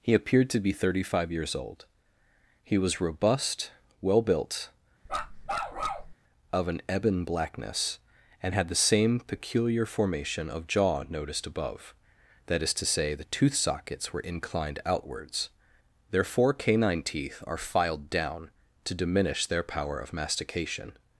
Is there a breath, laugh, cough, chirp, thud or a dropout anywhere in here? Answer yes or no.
yes